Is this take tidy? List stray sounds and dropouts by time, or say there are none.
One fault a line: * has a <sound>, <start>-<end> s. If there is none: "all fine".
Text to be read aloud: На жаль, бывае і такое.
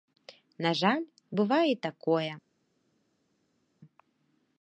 all fine